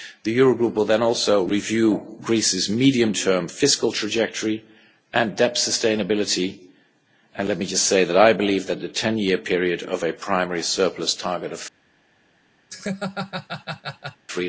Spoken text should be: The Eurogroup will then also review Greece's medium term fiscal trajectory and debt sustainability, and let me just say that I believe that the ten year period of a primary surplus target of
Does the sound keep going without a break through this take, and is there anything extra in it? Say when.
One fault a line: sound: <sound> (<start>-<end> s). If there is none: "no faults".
sound: laugh (12.7-14.3 s)